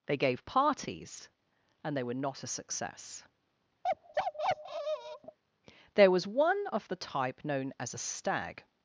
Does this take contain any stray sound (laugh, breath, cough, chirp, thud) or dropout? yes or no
yes